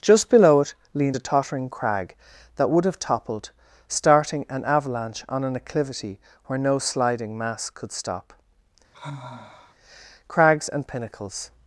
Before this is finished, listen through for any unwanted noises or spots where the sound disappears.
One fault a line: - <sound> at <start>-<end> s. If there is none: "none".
- sigh at 8.9-9.7 s